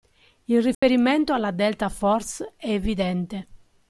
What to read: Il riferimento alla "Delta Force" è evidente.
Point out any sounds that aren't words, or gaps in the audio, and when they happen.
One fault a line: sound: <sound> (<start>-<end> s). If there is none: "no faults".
sound: dropout (0.7-0.8 s)